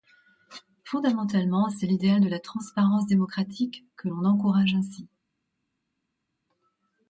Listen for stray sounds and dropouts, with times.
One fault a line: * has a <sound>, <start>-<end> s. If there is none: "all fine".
all fine